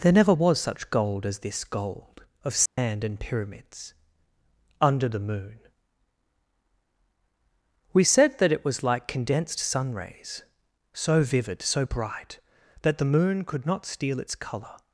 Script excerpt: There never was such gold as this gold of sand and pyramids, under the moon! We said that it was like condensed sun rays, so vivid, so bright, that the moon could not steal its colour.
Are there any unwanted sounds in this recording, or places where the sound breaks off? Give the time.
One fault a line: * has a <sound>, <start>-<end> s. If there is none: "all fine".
* has a dropout, 2.7-2.8 s